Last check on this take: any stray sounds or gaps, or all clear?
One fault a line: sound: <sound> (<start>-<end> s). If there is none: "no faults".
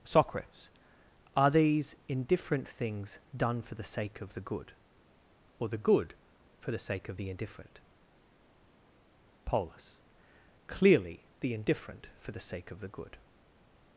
no faults